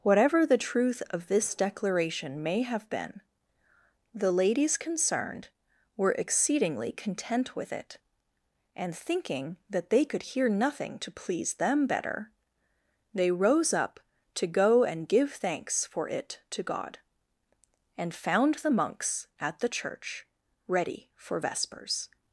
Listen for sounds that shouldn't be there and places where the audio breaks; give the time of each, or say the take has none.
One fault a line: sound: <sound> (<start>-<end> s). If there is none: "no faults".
no faults